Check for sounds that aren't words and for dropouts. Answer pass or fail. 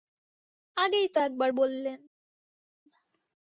pass